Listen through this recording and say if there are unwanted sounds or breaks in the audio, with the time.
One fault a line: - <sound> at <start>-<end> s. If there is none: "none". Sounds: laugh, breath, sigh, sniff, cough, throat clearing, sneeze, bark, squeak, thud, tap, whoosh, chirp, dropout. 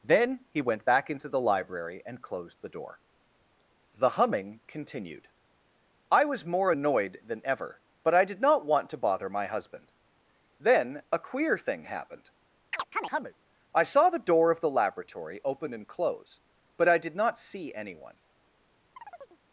- chirp at 12.7-13.4 s
- chirp at 19.0-19.4 s